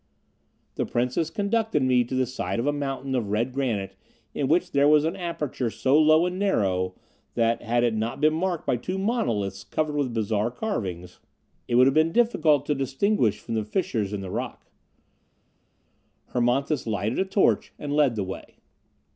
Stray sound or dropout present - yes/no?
no